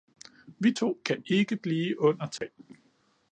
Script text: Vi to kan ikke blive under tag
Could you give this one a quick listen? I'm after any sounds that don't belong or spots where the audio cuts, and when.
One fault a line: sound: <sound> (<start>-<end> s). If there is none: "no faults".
sound: dropout (2.4-2.4 s)